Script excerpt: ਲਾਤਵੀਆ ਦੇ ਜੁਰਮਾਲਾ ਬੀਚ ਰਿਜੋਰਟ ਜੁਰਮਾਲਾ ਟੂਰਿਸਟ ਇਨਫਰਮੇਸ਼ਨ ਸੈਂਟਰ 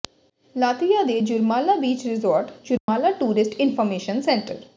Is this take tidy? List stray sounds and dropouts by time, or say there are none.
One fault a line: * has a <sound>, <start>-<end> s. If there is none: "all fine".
* has a dropout, 2.8-2.9 s